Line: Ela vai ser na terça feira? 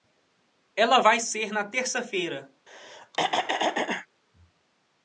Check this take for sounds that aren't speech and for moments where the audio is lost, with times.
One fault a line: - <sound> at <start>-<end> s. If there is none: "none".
- throat clearing at 2.7-4.1 s